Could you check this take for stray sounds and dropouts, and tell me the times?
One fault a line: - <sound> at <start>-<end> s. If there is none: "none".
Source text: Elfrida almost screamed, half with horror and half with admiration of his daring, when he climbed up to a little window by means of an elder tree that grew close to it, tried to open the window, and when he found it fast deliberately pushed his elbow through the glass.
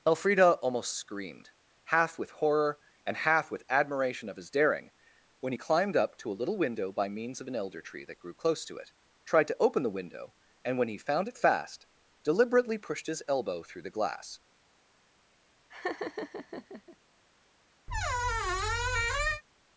- laugh at 15.7-17.0 s
- squeak at 17.9-19.4 s